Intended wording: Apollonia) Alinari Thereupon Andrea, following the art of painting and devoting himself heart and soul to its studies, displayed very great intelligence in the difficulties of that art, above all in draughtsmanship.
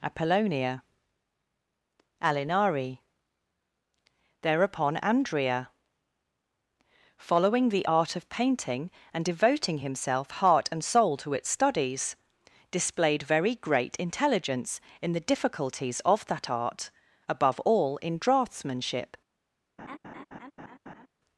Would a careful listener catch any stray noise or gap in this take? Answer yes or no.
yes